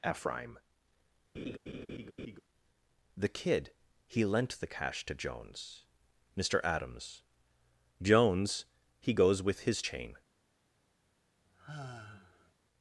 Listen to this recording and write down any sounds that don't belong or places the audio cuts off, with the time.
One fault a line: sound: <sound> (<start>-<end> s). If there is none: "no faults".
sound: laugh (1.3-2.4 s)
sound: sigh (11.5-12.5 s)